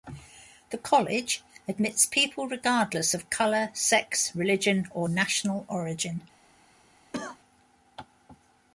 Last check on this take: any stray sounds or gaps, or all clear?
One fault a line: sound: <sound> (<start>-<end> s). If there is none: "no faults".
sound: cough (7.1-7.4 s)